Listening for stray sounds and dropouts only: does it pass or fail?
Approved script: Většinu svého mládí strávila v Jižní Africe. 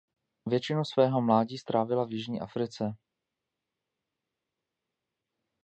pass